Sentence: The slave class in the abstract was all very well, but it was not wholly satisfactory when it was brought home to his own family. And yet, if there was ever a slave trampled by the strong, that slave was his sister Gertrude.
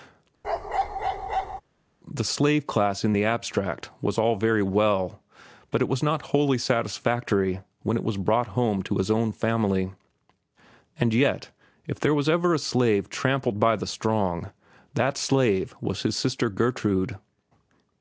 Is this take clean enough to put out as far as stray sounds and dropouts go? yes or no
no